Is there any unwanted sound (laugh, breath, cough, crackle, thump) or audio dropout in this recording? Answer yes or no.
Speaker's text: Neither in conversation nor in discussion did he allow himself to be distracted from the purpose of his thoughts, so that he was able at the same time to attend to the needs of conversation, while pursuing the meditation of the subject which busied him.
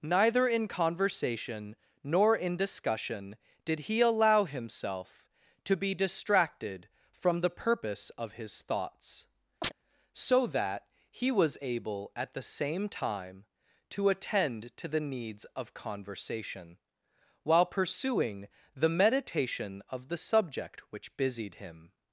yes